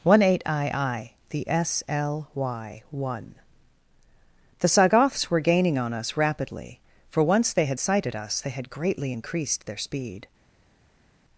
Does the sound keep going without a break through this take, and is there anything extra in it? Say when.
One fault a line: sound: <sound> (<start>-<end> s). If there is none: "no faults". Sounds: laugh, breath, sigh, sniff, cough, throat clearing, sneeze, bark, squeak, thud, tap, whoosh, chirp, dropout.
no faults